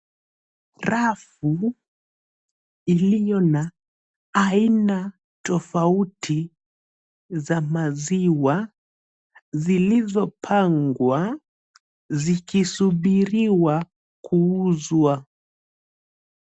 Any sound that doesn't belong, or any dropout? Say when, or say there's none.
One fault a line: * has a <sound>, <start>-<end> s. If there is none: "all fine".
all fine